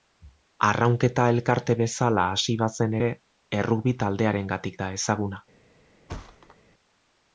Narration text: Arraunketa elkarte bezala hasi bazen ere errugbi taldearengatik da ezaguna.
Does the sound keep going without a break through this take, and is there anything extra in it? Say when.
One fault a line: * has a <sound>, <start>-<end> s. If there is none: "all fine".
* has a thud, 6.1-6.6 s